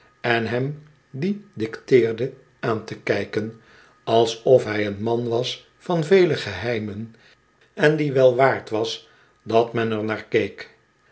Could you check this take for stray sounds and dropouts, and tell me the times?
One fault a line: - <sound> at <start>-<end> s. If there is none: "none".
none